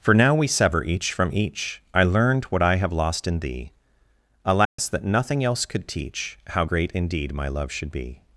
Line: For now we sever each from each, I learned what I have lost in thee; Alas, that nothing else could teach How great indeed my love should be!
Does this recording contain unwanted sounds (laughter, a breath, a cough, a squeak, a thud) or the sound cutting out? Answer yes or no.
yes